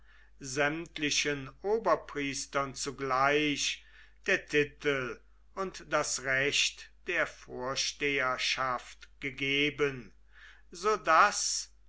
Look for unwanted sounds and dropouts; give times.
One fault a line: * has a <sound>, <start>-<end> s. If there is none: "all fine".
all fine